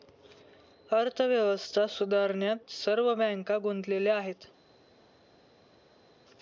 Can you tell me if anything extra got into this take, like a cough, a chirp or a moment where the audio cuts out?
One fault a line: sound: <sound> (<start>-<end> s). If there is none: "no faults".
no faults